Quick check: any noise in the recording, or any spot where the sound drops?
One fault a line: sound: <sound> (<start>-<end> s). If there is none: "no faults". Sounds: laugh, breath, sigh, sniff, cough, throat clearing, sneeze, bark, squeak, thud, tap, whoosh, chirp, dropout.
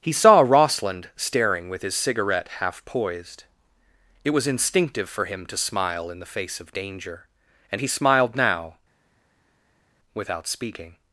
no faults